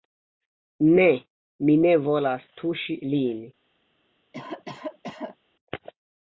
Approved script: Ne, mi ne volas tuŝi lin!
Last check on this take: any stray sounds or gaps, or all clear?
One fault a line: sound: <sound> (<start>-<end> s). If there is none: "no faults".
sound: cough (4.3-5.4 s)